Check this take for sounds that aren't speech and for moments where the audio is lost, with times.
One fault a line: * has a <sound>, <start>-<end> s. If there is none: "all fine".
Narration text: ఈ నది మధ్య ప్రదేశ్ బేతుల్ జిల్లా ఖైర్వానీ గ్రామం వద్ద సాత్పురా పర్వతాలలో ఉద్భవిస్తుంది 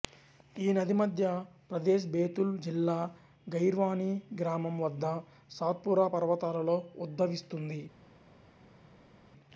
all fine